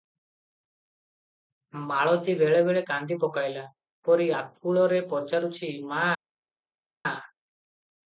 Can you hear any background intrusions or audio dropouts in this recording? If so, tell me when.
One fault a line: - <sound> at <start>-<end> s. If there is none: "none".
none